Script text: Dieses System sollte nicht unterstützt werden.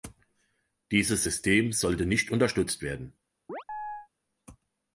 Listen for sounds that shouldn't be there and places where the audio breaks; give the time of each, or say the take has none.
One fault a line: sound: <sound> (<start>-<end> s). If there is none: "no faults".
sound: chirp (3.5-4.1 s)